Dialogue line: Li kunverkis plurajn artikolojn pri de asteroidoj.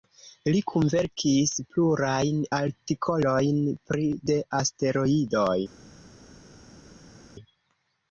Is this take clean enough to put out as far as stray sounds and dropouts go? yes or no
yes